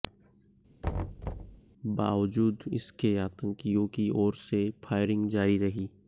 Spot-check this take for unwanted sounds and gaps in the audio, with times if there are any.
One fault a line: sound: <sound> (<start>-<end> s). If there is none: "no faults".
sound: thud (0.8-1.6 s)